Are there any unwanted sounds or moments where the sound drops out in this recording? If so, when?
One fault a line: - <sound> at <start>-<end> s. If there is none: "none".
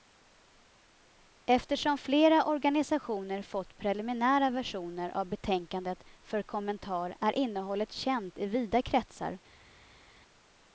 none